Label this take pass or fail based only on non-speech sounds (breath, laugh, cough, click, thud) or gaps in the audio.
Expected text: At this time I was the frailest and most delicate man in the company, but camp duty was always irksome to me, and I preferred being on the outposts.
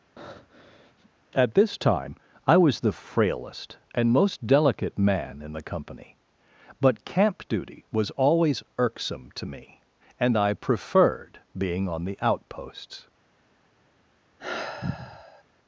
fail